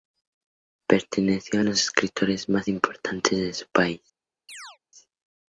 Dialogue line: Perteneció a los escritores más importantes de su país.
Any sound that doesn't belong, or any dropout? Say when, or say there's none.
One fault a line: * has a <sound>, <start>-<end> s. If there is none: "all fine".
* has a chirp, 4.5-4.8 s